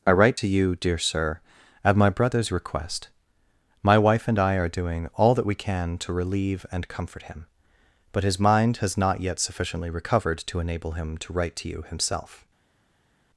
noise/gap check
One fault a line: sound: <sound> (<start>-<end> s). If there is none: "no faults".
no faults